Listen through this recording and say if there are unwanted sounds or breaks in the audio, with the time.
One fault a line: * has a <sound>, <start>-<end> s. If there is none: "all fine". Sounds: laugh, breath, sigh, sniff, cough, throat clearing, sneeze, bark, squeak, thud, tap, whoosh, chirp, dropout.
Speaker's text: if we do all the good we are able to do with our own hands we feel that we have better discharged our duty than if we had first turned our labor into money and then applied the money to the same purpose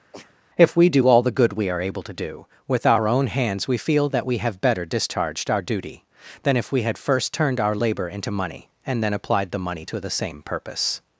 * has a sneeze, 0.1-0.4 s